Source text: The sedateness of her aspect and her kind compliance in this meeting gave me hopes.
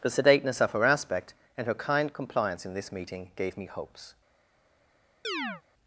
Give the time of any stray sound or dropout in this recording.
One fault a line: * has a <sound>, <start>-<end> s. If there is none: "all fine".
* has a chirp, 5.2-5.6 s